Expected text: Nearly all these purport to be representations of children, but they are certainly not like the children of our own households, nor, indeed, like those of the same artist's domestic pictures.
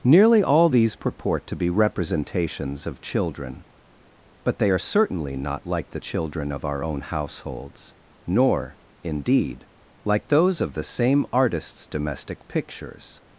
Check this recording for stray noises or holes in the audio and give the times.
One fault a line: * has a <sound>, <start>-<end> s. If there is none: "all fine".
all fine